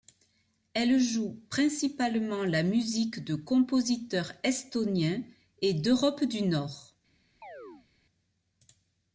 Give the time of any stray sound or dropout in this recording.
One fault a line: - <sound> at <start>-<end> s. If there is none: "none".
- chirp at 7.4-7.9 s